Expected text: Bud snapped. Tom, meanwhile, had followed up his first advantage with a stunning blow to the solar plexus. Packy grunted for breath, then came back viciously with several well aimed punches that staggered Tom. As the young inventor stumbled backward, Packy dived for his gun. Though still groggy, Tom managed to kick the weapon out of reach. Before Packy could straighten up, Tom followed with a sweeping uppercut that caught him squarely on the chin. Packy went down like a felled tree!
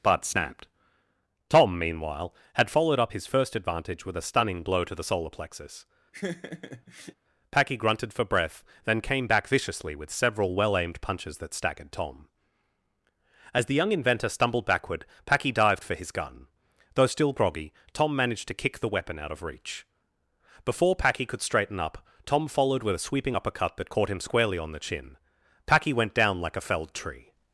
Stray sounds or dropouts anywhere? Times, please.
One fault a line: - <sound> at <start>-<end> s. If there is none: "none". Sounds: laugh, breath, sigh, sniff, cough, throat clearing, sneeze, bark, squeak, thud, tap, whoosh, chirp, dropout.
- laugh at 6.1-7.1 s